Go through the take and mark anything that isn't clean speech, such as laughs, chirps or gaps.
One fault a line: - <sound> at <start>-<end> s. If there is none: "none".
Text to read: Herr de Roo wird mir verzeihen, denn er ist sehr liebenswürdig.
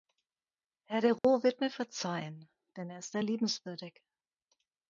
- dropout at 1.2-1.2 s